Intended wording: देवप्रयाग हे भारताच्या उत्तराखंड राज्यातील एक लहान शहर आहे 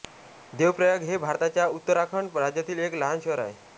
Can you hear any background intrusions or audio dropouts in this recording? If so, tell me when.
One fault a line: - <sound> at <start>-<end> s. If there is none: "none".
none